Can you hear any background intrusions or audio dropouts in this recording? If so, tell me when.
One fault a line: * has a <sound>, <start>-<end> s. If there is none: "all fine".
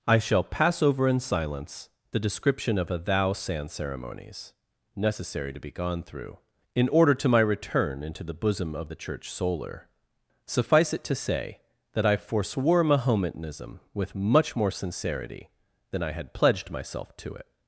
all fine